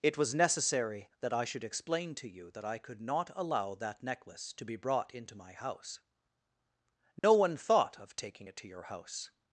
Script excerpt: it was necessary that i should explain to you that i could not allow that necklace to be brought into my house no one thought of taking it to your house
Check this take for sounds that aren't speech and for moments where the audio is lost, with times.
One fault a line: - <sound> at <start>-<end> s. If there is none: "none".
- dropout at 7.2-7.2 s